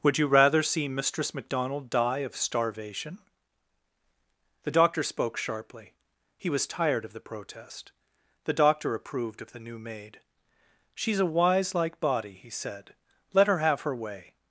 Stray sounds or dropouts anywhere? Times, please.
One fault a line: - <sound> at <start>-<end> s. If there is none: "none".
none